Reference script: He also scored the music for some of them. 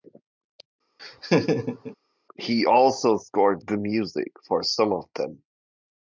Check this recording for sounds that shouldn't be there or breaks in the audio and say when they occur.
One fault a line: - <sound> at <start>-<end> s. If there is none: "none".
- laugh at 1.0-2.0 s